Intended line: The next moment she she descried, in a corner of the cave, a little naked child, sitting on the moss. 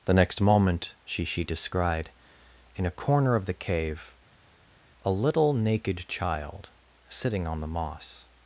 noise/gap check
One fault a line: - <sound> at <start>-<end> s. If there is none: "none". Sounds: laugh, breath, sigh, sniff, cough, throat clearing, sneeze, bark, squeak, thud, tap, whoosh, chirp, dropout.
none